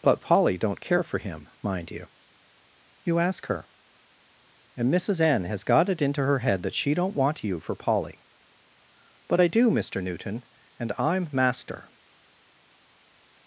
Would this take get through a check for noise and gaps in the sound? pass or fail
pass